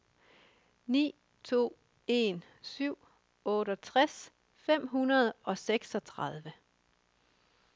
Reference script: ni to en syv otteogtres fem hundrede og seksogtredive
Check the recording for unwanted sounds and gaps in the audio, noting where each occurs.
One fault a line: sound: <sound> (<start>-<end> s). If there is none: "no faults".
no faults